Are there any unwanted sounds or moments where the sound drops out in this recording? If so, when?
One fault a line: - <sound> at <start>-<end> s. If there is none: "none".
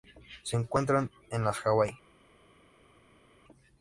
none